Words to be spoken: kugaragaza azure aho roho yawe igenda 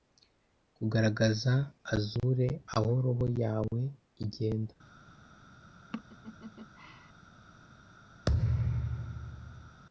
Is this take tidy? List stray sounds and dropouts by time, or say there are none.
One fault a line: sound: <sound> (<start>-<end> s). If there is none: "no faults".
sound: laugh (5.9-7.1 s)
sound: thud (8.3-9.8 s)